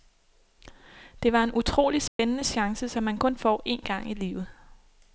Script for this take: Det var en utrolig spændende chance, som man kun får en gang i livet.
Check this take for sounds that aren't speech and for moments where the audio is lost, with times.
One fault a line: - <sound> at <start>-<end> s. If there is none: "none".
- dropout at 2.1-2.2 s